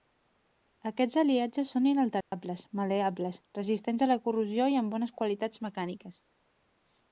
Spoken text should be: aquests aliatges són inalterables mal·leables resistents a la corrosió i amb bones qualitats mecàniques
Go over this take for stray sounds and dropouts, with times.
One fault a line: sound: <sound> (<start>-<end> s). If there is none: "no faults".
sound: dropout (2.2-2.3 s)